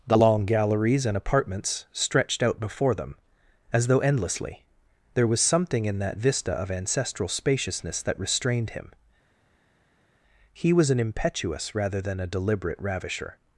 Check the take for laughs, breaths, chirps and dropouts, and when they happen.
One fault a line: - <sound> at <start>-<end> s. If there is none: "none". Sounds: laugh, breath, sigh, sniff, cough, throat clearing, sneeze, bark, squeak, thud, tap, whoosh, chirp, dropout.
none